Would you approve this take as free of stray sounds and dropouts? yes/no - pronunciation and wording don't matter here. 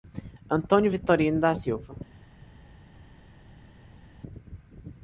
yes